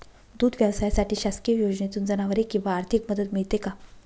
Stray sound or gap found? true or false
false